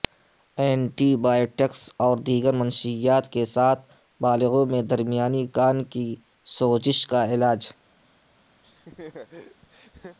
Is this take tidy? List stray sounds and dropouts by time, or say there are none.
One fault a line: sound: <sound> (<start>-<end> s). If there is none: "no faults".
sound: laugh (8.6-10.2 s)